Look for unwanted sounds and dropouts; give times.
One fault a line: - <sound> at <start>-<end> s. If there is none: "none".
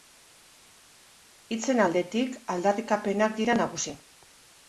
none